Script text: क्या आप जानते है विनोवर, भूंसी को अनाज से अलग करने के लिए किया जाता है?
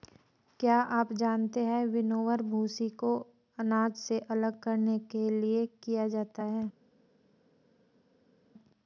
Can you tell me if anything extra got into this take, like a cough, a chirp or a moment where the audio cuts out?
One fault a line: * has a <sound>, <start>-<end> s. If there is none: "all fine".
all fine